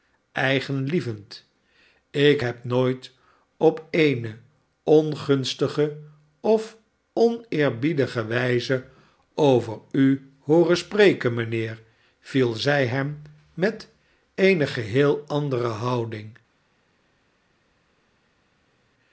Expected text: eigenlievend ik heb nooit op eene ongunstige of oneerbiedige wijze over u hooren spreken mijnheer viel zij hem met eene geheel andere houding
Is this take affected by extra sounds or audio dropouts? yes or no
no